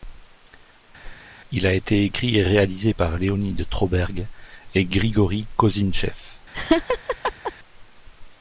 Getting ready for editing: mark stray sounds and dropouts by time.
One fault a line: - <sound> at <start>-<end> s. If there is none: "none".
- whoosh at 1.0-1.3 s
- laugh at 6.5-7.5 s